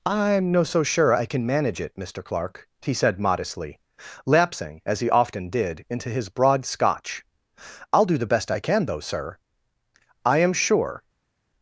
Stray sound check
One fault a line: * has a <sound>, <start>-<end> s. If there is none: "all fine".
all fine